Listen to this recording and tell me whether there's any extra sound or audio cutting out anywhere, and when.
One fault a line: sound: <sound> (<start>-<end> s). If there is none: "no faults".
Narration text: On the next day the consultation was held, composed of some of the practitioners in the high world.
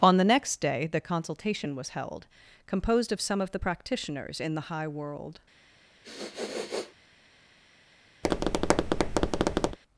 sound: sniff (6.0-6.9 s)
sound: tap (8.2-9.8 s)